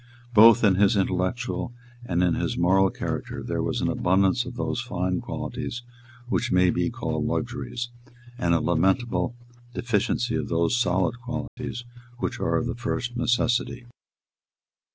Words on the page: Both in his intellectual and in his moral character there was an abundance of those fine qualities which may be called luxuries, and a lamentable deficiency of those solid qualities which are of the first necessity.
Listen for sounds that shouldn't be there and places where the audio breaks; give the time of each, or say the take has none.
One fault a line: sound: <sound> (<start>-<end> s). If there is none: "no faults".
sound: dropout (11.5-11.6 s)